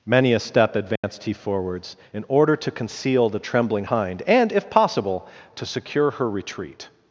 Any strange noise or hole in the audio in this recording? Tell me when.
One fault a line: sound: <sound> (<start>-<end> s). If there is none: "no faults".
sound: dropout (1.0-1.0 s)